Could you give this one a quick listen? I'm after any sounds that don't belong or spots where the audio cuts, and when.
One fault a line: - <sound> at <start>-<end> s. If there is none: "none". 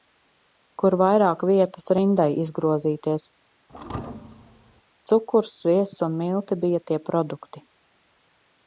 - thud at 3.7-4.8 s